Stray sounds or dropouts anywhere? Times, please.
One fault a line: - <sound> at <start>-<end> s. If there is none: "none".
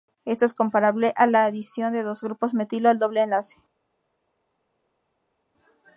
none